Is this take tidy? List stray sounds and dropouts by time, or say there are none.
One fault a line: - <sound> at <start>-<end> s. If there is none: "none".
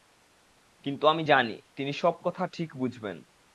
none